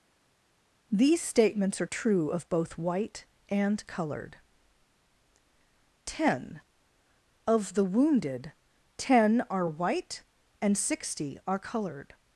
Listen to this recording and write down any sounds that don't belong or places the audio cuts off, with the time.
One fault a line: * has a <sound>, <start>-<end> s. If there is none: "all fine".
all fine